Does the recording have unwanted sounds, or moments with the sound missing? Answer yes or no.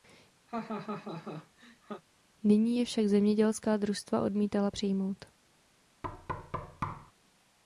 yes